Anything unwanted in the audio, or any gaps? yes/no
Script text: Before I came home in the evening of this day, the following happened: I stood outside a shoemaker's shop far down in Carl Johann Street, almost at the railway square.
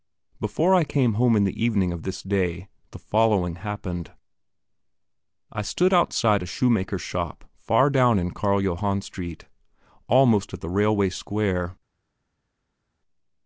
no